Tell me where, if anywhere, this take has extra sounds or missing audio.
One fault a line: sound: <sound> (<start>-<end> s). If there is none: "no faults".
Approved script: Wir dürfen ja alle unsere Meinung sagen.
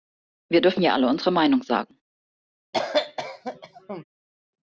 sound: cough (2.7-4.0 s)